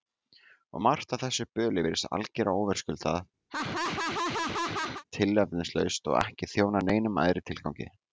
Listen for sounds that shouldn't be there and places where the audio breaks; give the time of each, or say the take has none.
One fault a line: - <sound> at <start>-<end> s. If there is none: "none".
- laugh at 3.5-5.0 s